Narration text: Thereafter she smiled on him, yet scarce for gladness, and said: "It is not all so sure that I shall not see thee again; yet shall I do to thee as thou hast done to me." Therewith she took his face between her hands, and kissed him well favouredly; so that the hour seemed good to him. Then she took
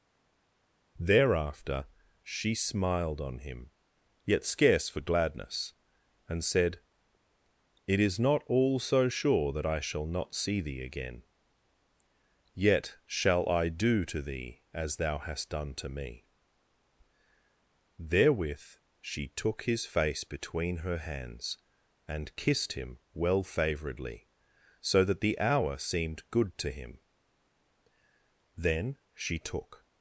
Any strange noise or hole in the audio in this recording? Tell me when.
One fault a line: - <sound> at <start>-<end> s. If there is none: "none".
none